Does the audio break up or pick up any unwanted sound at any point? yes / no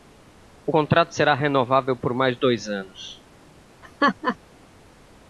yes